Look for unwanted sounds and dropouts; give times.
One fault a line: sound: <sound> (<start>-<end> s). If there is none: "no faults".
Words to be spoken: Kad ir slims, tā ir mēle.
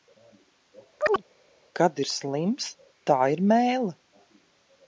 sound: chirp (1.0-1.2 s)